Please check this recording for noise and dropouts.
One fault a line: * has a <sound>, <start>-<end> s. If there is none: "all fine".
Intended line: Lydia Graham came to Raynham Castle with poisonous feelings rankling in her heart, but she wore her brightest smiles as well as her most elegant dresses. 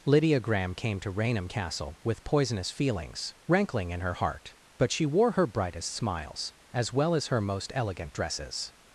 all fine